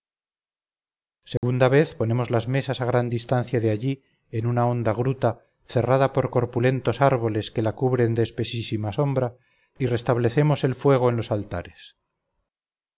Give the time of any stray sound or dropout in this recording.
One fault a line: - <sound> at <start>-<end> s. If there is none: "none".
- dropout at 1.4-1.4 s